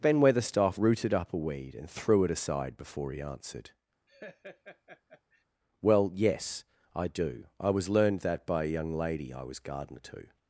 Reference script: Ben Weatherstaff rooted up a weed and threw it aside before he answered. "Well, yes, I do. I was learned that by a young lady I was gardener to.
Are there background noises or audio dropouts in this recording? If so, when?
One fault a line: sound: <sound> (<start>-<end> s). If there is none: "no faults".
sound: laugh (4.1-5.4 s)